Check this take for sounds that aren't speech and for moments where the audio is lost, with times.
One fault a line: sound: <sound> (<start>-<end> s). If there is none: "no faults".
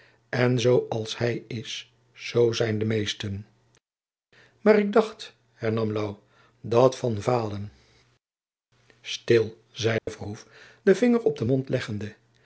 sound: dropout (10.0-10.1 s)